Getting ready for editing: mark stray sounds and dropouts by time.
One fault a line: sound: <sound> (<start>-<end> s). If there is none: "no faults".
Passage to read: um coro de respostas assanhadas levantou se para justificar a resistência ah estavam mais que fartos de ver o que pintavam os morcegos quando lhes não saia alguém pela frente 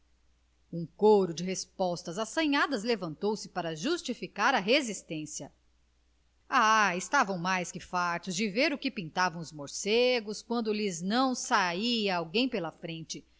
no faults